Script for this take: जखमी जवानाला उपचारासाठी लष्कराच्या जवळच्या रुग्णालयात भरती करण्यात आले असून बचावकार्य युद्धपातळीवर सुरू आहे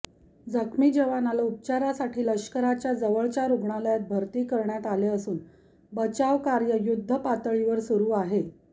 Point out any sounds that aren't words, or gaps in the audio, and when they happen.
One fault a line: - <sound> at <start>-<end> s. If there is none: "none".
none